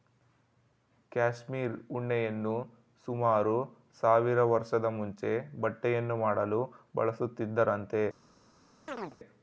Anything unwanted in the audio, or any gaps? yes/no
yes